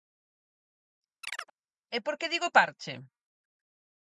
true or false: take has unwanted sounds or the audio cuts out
true